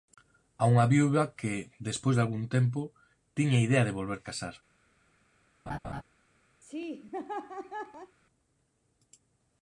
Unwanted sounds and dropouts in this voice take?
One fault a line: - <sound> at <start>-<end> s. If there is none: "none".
- laugh at 5.7-6.0 s
- laugh at 6.6-8.2 s